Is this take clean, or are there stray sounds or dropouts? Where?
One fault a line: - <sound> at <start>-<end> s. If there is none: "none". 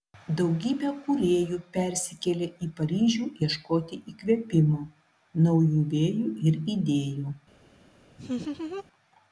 - laugh at 8.2-8.8 s